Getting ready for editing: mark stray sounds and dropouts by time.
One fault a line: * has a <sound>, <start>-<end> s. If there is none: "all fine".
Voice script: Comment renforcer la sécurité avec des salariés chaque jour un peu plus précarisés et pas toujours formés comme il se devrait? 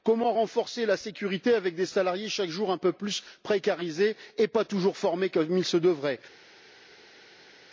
all fine